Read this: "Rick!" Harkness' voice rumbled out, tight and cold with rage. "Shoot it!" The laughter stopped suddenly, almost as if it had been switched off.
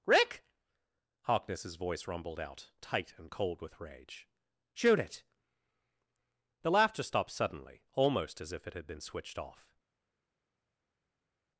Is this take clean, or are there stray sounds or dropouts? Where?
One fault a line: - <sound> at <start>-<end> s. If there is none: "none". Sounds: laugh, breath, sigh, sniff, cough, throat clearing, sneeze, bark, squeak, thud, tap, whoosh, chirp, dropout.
none